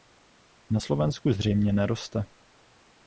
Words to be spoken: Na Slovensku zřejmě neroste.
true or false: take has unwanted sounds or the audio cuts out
false